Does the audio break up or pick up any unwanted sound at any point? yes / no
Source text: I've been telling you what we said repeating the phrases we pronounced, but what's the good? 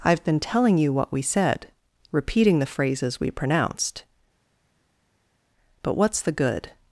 no